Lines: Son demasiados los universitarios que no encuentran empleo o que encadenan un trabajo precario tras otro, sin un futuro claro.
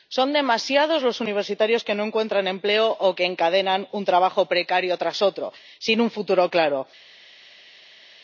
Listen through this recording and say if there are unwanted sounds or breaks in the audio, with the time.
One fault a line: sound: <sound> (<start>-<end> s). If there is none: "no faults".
no faults